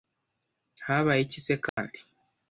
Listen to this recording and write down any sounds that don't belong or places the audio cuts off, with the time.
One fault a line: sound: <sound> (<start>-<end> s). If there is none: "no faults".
sound: dropout (1.7-1.8 s)